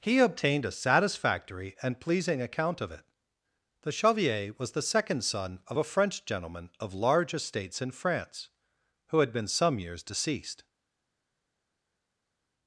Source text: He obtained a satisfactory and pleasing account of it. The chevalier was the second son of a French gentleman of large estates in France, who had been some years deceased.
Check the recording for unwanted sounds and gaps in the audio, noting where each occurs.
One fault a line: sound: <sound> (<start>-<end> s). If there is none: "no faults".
no faults